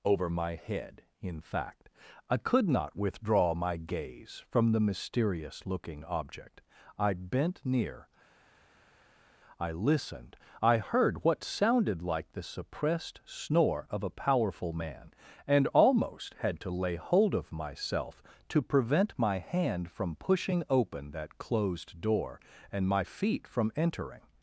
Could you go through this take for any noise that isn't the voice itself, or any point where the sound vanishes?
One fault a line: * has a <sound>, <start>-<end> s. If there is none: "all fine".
all fine